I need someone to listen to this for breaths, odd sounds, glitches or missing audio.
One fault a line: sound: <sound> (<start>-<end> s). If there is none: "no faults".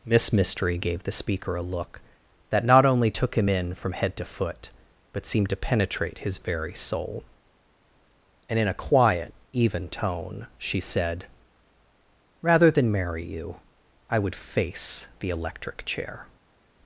no faults